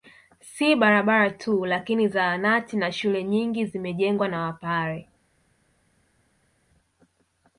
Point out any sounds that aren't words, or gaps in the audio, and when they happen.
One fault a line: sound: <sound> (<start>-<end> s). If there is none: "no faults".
no faults